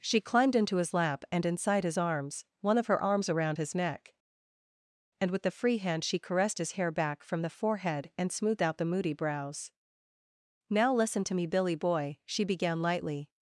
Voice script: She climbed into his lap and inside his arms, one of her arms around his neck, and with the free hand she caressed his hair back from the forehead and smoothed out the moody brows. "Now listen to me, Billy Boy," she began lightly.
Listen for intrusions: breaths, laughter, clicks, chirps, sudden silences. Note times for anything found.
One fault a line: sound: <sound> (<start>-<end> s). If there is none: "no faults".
no faults